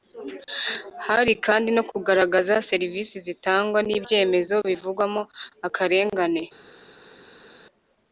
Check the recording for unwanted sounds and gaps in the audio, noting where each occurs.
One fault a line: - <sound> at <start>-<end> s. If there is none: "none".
none